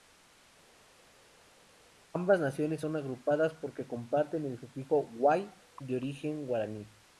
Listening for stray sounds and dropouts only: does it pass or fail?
pass